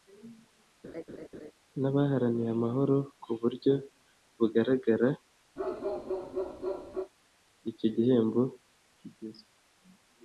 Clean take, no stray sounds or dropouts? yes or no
no